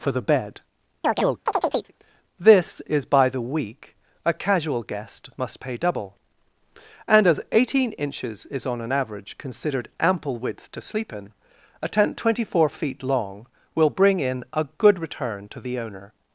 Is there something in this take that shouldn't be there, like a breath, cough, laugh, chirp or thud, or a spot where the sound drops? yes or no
yes